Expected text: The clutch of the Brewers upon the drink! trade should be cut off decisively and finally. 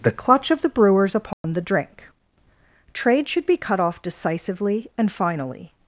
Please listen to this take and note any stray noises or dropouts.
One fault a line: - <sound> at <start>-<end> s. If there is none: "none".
- dropout at 1.3-1.4 s